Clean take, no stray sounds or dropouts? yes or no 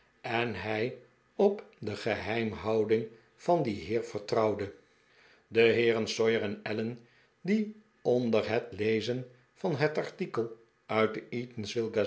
yes